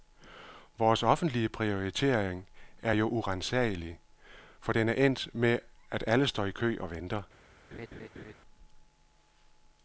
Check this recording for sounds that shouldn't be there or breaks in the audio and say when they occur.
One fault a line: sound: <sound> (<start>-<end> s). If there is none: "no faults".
sound: laugh (7.7-8.3 s)